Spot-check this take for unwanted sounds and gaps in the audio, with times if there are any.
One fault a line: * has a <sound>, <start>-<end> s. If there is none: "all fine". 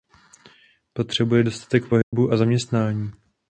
* has a dropout, 2.0-2.1 s